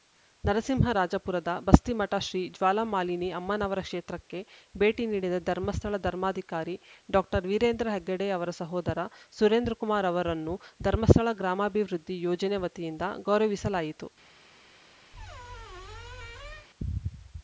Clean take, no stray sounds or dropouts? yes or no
no